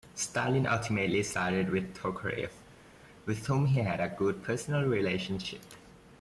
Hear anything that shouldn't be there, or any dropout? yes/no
no